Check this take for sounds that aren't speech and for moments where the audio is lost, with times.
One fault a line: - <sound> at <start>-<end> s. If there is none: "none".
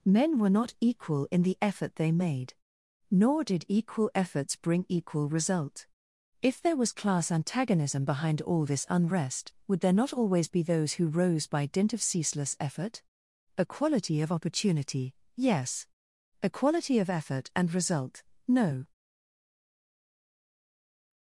none